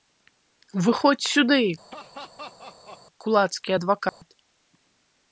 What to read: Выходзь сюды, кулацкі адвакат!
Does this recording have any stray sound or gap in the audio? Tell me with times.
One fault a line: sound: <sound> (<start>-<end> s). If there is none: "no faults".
sound: laugh (1.9-3.0 s)
sound: dropout (4.1-4.2 s)